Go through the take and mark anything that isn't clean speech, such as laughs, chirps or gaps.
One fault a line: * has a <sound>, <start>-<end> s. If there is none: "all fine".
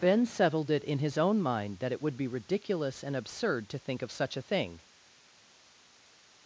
all fine